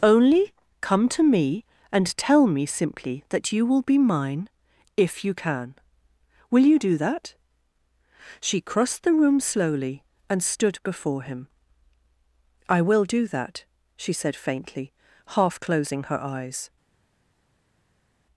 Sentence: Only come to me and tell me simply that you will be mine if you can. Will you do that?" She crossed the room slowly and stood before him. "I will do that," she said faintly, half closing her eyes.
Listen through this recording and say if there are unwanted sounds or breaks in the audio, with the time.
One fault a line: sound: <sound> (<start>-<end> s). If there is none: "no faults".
no faults